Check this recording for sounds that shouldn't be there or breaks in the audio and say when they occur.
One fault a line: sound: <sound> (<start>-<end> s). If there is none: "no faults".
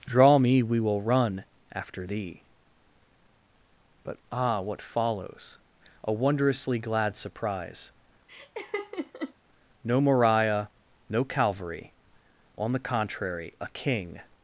sound: laugh (8.3-9.3 s)